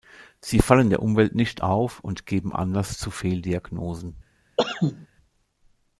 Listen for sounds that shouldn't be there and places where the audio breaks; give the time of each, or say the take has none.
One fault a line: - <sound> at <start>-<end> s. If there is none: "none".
- cough at 4.6-5.1 s